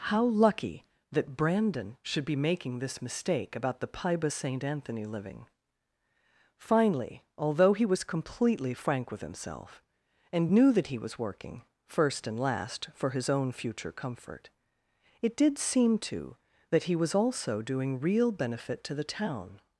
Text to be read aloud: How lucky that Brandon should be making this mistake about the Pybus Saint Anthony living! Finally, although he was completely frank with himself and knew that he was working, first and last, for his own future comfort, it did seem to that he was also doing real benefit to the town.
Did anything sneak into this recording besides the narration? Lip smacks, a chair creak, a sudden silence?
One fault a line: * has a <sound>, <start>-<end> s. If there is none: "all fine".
all fine